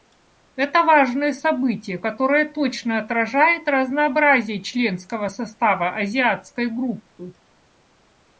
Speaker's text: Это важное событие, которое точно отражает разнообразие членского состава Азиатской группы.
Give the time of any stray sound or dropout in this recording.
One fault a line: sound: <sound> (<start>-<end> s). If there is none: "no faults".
no faults